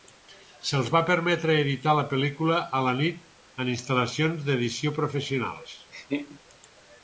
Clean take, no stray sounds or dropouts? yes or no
no